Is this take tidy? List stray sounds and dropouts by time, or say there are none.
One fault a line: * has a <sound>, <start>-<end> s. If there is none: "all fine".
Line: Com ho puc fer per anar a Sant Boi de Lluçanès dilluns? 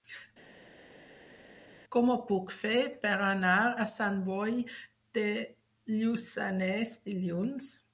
all fine